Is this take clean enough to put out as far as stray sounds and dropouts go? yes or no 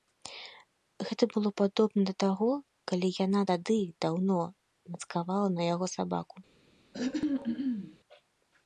no